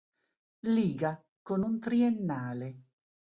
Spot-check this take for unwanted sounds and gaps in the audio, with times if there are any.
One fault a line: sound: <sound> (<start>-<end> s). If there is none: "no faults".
no faults